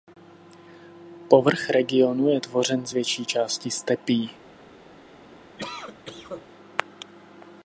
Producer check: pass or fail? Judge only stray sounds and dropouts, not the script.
fail